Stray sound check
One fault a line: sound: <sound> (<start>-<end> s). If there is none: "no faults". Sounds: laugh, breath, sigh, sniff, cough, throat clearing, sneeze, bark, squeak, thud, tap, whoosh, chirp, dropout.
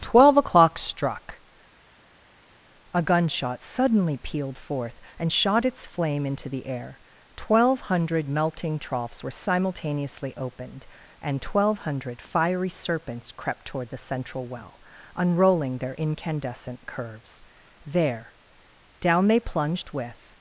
no faults